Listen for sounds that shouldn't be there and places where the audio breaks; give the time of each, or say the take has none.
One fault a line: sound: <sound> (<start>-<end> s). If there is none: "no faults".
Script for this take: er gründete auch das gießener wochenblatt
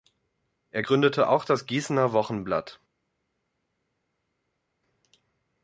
no faults